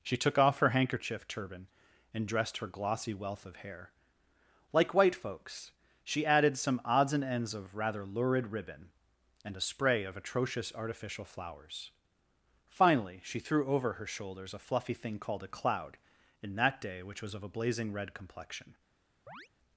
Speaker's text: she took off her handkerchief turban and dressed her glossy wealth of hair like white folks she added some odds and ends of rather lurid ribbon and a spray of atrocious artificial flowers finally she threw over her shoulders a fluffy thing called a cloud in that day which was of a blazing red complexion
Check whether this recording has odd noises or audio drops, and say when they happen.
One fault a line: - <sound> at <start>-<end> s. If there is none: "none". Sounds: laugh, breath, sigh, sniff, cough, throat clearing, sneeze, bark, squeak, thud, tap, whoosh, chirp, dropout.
- chirp at 19.3-19.5 s